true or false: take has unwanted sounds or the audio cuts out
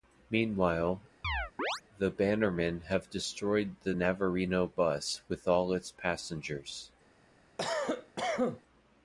true